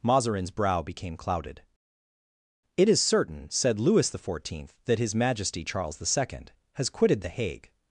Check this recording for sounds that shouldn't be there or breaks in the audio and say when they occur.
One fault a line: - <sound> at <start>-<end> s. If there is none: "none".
none